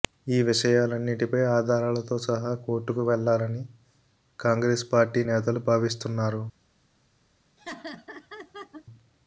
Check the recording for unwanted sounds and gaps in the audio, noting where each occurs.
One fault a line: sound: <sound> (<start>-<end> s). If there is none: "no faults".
sound: laugh (7.6-8.9 s)